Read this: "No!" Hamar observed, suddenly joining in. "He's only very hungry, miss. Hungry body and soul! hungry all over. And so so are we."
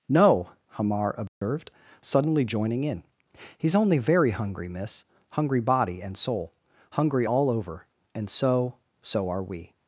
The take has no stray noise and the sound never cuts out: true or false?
false